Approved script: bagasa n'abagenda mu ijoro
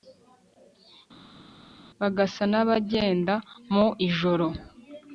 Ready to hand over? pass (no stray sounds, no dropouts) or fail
pass